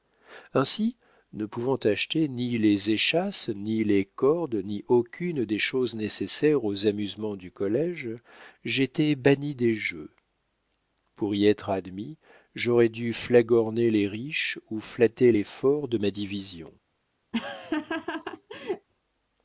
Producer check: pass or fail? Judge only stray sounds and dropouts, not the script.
fail